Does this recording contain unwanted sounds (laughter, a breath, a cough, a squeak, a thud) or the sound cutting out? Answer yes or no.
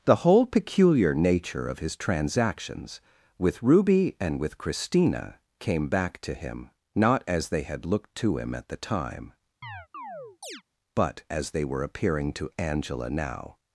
yes